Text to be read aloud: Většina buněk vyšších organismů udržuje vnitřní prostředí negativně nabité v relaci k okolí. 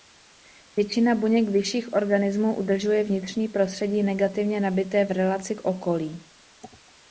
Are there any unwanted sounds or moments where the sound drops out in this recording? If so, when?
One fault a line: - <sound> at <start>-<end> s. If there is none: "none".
none